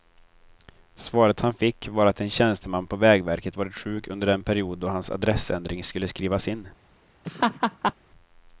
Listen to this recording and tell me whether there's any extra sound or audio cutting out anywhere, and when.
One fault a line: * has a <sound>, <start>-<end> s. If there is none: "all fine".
* has a laugh, 7.2-7.9 s